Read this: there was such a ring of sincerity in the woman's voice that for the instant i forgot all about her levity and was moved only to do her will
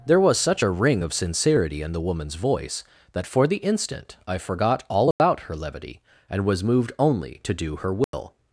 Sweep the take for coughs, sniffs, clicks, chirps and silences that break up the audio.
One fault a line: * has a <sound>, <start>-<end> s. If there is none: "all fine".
* has a dropout, 5.1-5.2 s
* has a dropout, 8.0-8.1 s